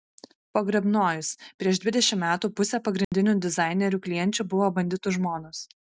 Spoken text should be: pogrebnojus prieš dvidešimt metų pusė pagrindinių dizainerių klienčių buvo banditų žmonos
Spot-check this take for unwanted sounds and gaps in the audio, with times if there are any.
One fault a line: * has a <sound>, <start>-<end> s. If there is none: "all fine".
* has a dropout, 3.0-3.1 s